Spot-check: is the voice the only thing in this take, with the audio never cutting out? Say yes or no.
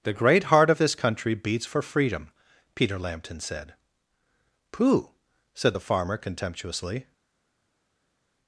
yes